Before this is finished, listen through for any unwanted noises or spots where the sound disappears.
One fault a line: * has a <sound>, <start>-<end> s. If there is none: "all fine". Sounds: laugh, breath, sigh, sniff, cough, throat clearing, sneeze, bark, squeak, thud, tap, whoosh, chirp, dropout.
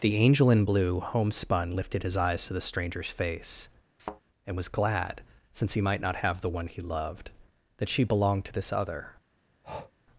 * has a thud, 4.0-4.2 s
* has a breath, 9.6-9.9 s